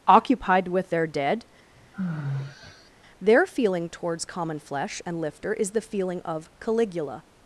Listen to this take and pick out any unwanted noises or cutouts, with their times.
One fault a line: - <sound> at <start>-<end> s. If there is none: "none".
- sigh at 1.7-2.9 s